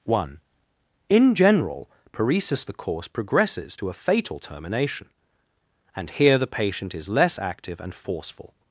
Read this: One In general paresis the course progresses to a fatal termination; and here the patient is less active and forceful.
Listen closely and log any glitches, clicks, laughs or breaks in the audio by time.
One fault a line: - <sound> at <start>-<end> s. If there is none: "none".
none